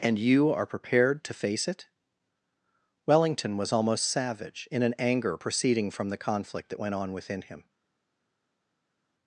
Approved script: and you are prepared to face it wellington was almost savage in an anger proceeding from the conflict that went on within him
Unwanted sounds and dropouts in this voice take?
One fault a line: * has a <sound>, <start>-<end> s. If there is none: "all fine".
all fine